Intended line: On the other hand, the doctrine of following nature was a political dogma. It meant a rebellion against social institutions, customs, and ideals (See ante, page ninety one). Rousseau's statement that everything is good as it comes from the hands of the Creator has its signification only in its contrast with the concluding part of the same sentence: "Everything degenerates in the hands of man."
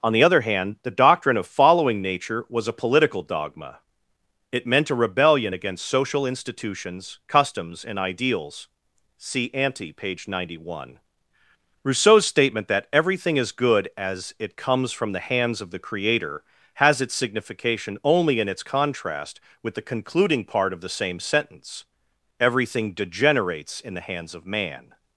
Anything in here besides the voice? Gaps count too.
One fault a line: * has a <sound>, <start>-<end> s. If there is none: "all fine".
all fine